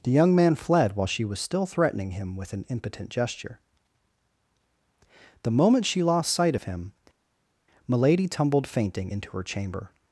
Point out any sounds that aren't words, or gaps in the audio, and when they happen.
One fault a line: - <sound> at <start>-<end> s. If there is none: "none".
none